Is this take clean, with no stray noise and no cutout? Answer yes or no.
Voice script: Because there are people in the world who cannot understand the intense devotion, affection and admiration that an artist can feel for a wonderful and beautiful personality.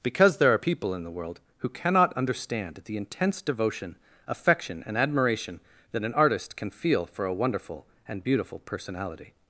yes